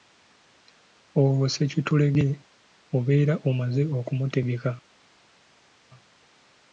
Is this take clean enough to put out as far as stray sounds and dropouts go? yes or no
yes